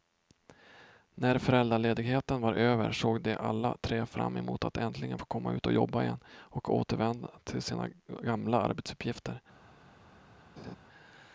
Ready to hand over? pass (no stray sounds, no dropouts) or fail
fail